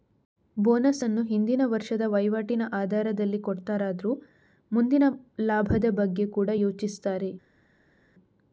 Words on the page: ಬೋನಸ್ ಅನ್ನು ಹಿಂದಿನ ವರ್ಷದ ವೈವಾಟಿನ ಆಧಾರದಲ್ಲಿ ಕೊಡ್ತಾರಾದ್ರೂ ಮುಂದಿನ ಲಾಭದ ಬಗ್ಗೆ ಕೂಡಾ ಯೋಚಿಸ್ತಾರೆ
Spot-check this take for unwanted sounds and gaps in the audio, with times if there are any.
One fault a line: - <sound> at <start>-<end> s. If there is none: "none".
none